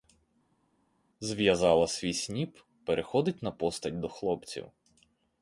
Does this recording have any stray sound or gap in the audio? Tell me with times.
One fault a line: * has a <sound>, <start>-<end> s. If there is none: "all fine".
all fine